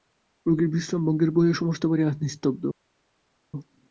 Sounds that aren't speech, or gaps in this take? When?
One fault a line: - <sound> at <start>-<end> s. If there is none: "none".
none